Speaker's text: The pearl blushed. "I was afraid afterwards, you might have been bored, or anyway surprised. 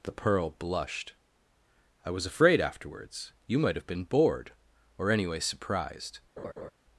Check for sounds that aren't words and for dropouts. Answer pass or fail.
fail